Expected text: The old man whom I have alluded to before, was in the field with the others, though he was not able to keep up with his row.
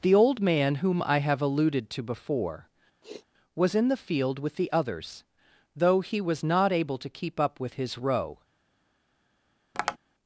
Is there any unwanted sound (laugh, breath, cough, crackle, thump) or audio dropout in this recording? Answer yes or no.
yes